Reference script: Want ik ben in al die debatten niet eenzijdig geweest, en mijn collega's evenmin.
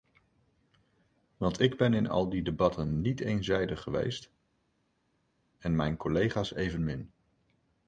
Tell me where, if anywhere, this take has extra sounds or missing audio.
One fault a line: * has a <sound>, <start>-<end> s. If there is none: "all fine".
all fine